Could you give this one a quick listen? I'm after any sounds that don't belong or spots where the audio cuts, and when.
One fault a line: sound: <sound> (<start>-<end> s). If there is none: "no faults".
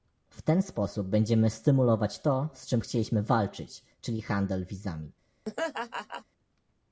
sound: laugh (5.4-6.2 s)